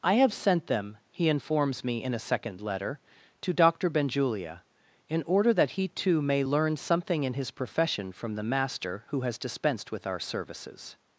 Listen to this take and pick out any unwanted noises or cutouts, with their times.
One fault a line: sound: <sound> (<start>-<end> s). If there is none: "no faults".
no faults